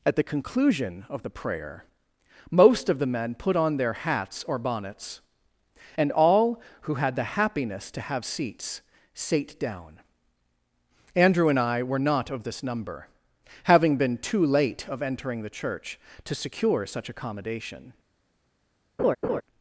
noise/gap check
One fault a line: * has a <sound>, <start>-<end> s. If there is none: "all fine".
* has a laugh, 19.0-19.4 s